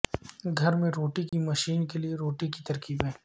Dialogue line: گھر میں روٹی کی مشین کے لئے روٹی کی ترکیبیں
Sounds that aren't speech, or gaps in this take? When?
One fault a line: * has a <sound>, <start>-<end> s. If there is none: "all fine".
* has a dropout, 1.3-1.3 s